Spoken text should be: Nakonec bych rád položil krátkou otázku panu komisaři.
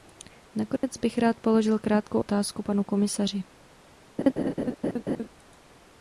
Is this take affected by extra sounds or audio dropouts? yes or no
yes